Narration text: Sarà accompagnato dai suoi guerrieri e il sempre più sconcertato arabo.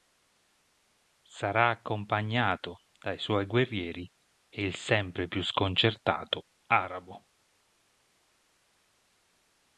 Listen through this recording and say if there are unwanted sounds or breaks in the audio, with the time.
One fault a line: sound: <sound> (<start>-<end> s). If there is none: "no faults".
no faults